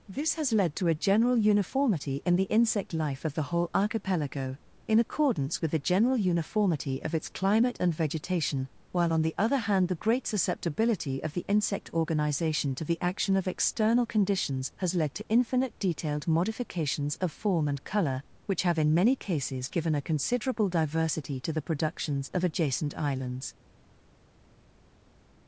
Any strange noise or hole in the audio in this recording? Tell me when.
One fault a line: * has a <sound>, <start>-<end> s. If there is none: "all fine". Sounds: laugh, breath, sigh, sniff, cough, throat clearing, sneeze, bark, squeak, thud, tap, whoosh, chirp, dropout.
all fine